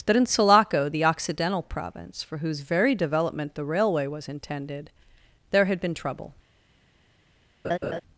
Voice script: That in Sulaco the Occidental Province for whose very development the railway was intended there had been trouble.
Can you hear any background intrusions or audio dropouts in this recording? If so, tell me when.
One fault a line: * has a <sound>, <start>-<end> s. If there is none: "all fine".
* has a laugh, 7.6-8.0 s